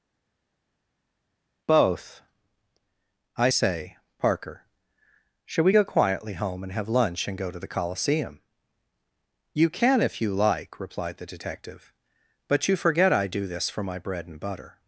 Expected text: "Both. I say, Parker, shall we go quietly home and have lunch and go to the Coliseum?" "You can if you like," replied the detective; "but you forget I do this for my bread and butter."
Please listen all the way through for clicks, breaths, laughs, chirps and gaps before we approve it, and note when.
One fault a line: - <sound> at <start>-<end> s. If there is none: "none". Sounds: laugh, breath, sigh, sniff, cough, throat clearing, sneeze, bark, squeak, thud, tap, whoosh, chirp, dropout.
none